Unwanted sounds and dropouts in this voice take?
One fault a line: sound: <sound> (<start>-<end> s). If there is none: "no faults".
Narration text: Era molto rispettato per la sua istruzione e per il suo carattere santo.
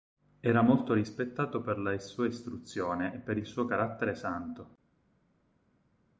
no faults